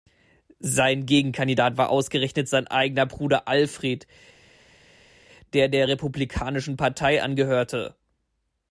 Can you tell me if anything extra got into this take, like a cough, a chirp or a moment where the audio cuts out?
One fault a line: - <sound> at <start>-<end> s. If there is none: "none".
none